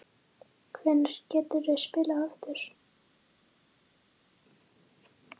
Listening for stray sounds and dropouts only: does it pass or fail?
pass